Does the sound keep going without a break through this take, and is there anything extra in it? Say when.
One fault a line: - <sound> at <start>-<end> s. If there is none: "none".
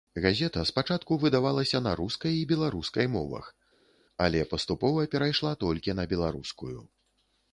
none